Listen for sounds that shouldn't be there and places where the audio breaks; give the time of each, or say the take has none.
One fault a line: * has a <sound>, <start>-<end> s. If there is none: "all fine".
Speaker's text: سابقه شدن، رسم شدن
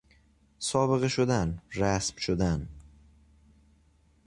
all fine